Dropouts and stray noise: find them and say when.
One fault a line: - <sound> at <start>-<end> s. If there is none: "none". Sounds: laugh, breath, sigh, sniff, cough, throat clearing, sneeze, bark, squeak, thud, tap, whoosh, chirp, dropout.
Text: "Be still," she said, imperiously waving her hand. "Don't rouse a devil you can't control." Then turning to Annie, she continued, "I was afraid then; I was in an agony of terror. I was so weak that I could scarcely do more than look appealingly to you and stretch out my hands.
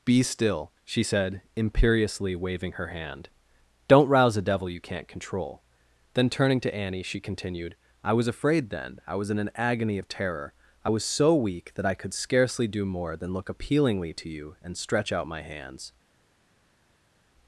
none